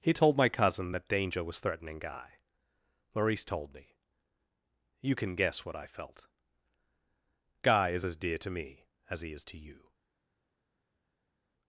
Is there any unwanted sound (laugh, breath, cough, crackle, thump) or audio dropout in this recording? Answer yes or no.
no